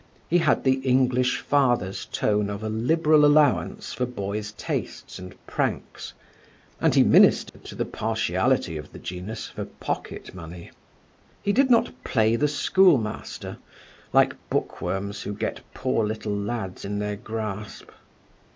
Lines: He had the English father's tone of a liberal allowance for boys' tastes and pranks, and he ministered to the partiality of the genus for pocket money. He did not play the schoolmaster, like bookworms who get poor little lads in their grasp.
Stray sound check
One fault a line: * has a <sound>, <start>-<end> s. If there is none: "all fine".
* has a dropout, 7.5-7.5 s